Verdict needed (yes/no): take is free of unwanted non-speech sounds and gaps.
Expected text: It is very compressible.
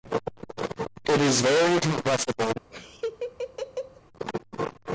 no